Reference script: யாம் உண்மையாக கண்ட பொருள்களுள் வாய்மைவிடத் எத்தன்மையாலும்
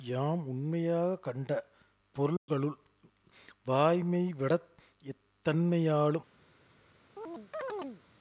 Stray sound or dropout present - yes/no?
yes